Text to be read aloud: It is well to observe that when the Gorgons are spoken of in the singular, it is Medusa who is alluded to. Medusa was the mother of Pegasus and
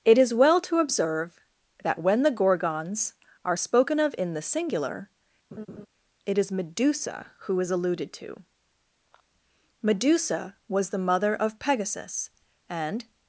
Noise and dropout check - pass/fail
fail